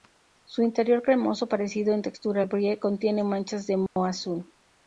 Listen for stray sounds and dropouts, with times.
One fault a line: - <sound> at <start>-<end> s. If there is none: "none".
- dropout at 3.9-4.0 s